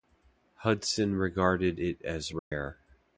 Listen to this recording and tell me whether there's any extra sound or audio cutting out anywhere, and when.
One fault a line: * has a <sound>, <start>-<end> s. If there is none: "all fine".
* has a dropout, 2.4-2.5 s